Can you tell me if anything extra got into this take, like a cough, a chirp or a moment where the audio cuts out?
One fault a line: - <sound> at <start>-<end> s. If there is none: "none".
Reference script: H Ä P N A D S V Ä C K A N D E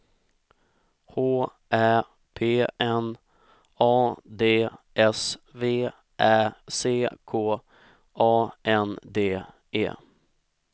none